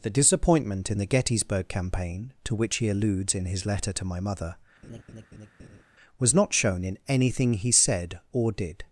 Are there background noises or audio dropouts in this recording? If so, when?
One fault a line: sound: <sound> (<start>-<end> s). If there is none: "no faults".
sound: laugh (4.8-5.8 s)